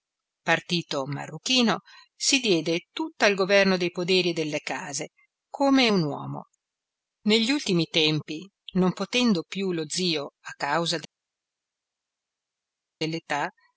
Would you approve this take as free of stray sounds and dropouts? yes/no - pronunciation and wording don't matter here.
yes